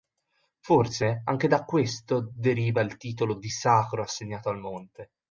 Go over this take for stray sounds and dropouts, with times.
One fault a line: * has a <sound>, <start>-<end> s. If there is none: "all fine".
all fine